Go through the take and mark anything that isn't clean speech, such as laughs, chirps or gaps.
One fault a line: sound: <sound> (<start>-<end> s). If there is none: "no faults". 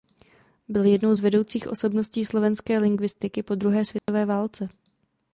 sound: dropout (4.0-4.1 s)